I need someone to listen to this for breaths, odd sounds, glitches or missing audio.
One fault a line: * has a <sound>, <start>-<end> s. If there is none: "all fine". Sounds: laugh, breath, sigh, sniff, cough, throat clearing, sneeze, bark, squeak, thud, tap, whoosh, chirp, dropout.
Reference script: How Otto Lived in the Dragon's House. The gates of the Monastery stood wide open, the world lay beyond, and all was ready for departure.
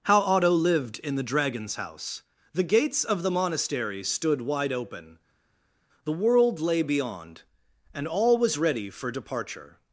all fine